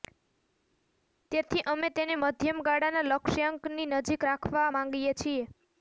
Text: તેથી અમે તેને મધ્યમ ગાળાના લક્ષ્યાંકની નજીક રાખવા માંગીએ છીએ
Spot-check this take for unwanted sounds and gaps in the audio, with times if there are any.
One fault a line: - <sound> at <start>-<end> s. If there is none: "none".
none